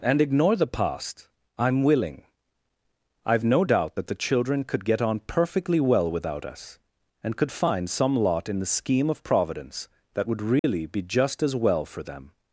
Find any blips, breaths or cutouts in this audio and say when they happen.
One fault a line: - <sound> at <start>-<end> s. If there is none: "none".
- dropout at 10.6-10.6 s